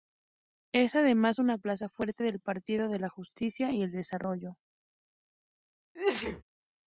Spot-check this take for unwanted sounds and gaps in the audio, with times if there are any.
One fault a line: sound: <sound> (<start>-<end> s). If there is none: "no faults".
sound: sneeze (5.9-6.4 s)